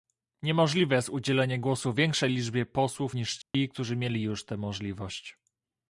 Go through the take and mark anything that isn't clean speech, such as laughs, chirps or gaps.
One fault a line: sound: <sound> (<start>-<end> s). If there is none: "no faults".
sound: dropout (3.4-3.5 s)